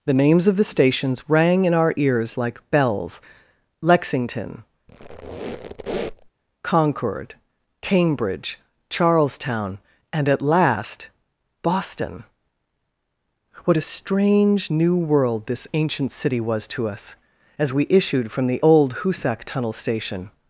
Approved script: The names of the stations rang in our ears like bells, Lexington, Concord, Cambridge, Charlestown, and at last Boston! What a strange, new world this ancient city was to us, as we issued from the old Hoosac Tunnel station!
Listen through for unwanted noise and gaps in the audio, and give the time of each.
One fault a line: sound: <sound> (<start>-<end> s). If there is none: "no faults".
sound: squeak (4.9-6.3 s)